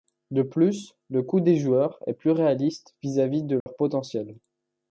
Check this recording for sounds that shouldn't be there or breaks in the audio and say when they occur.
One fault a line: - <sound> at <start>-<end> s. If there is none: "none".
- dropout at 3.6-3.7 s